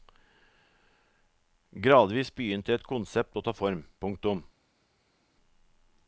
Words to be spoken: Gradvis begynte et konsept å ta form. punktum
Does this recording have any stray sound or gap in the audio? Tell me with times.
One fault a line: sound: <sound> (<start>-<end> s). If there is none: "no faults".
no faults